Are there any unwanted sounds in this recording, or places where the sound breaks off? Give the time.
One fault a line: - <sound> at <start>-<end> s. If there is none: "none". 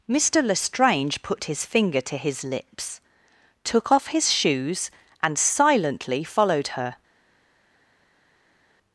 none